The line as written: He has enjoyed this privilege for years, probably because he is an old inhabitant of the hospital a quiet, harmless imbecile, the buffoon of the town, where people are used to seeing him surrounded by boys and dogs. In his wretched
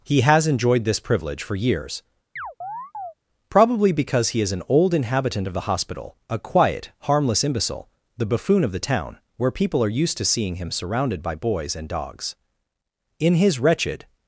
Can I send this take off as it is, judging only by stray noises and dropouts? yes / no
no